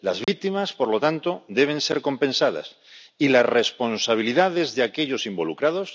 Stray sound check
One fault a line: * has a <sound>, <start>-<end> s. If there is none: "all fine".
* has a dropout, 0.2-0.3 s